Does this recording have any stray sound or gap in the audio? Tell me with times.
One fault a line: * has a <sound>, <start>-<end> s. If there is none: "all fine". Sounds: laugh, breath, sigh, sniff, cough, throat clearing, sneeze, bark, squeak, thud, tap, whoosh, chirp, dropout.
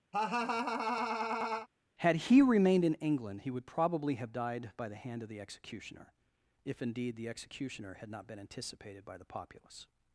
* has a laugh, 0.1-1.7 s